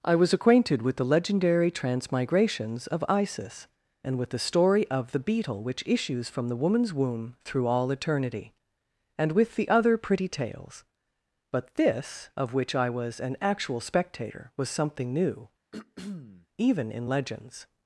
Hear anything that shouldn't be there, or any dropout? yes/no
yes